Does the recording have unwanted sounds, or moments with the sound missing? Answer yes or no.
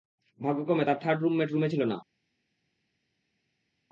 no